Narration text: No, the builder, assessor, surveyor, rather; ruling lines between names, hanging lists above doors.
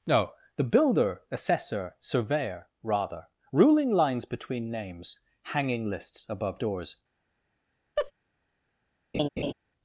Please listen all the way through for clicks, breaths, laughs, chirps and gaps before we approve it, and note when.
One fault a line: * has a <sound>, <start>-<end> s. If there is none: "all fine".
* has a laugh, 8.0-8.1 s
* has a laugh, 9.1-9.5 s